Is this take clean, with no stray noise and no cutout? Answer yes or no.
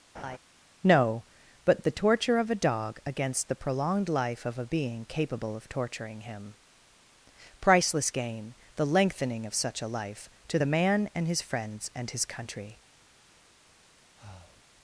no